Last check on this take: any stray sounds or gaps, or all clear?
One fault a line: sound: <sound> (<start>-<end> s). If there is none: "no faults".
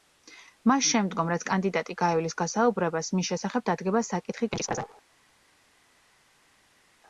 no faults